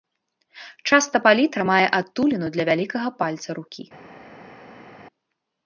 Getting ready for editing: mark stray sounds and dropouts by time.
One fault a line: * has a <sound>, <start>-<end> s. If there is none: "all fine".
all fine